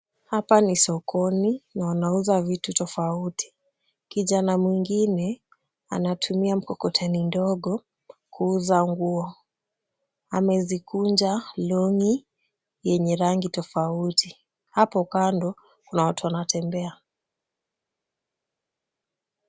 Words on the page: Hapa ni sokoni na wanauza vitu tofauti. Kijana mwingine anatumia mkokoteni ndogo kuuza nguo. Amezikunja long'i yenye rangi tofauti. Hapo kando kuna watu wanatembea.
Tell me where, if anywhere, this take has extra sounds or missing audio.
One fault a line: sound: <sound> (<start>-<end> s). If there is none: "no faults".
no faults